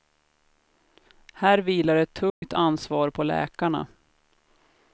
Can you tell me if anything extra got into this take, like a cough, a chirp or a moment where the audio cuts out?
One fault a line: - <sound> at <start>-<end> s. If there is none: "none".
- dropout at 2.3-2.4 s